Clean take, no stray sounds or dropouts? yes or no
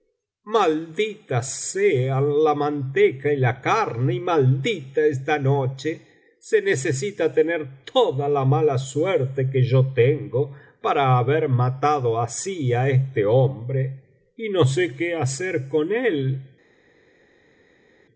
yes